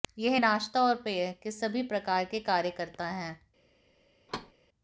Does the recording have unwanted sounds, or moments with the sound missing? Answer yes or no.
yes